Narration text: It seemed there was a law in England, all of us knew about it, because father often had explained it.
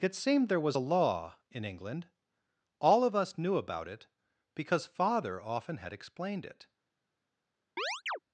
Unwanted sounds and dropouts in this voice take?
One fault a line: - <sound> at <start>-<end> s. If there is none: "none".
- chirp at 7.8-8.2 s